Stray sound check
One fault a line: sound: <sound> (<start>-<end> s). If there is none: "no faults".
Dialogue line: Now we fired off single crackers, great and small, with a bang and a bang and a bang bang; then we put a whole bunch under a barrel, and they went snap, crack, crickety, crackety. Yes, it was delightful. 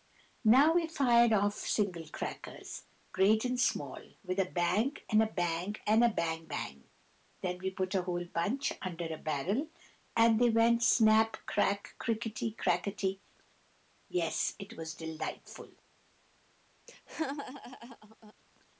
sound: laugh (16.9-18.3 s)